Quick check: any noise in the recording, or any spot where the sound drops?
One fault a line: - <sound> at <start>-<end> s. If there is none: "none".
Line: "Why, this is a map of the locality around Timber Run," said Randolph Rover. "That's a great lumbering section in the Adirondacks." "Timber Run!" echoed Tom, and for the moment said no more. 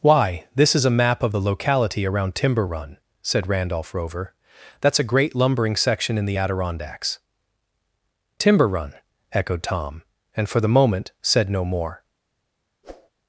- whoosh at 12.8-13.1 s